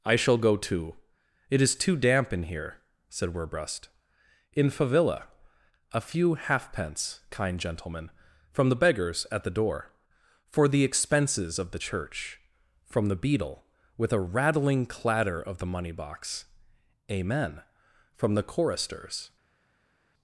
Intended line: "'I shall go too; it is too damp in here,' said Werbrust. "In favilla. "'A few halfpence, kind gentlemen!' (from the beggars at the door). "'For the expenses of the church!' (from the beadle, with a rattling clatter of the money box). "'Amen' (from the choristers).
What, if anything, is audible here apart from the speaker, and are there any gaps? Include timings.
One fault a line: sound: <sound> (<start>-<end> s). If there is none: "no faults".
no faults